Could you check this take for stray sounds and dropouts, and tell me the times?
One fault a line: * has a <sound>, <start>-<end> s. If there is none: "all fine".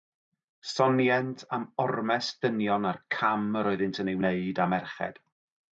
all fine